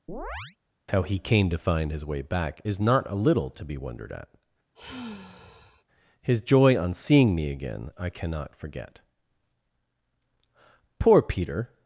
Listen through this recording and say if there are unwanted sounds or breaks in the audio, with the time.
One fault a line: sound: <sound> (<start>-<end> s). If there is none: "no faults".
sound: chirp (0.1-0.6 s)
sound: sigh (4.8-5.8 s)